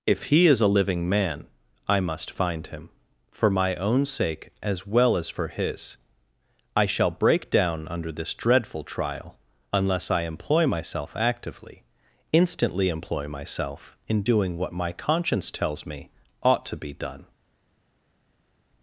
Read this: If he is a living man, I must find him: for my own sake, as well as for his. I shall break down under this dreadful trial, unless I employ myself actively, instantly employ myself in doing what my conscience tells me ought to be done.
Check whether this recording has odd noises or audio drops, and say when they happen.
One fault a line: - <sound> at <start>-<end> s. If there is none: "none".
none